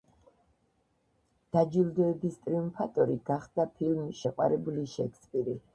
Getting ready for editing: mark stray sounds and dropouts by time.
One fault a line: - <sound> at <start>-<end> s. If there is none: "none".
none